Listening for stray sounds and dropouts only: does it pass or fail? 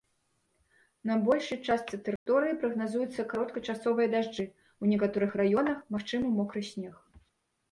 fail